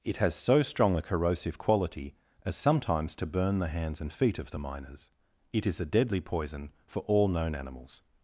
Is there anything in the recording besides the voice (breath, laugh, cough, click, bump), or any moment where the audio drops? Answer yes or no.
no